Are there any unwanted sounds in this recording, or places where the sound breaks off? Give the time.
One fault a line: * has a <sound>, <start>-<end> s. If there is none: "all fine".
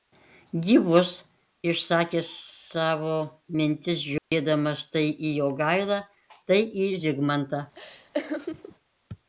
* has a dropout, 4.2-4.3 s
* has a laugh, 7.7-8.8 s